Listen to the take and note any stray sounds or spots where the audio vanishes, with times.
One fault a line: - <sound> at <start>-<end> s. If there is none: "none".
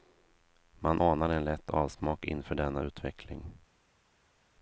none